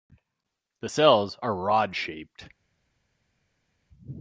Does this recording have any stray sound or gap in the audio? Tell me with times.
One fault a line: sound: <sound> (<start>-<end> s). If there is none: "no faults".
no faults